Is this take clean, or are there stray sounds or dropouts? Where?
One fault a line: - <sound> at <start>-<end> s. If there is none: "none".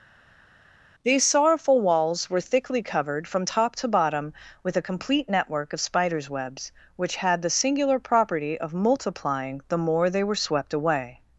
none